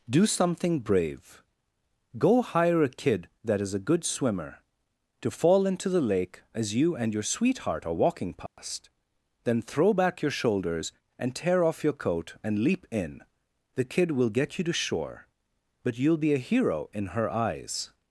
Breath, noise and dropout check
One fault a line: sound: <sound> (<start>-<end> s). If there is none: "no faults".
sound: dropout (8.5-8.6 s)